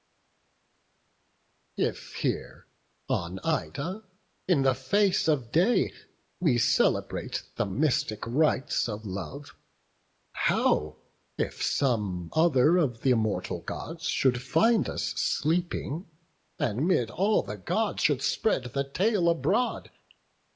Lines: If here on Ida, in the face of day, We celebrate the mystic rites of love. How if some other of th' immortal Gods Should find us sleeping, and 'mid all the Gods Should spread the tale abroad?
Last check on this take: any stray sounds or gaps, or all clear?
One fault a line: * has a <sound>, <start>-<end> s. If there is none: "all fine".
all fine